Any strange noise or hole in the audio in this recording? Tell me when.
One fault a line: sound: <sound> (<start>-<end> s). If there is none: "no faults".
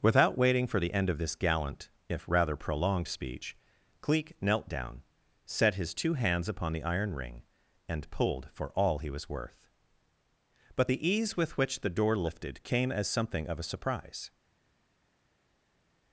no faults